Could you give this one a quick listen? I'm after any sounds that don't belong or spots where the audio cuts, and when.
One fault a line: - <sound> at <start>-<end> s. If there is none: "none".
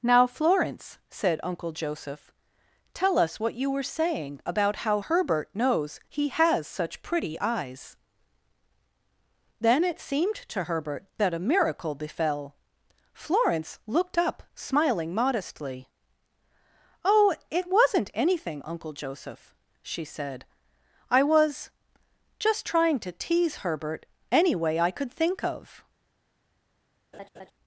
- laugh at 27.1-27.5 s